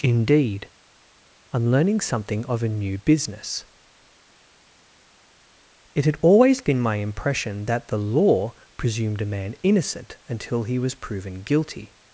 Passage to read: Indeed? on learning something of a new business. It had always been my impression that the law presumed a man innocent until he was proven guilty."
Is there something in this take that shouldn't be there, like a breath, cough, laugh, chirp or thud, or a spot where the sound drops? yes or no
no